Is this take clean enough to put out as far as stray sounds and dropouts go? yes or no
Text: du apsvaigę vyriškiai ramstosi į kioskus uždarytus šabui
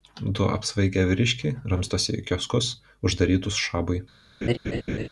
no